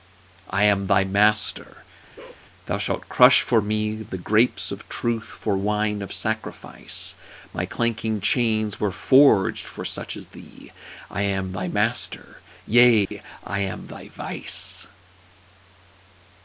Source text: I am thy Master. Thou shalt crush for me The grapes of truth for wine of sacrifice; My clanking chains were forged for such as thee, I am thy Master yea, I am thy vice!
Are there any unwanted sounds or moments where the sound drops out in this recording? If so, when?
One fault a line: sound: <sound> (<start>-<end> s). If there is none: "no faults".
sound: bark (2.2-2.5 s)
sound: dropout (13.0-13.1 s)